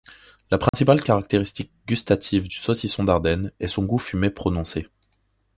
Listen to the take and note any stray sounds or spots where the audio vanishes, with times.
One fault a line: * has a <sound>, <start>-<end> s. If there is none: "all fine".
* has a dropout, 0.7-0.7 s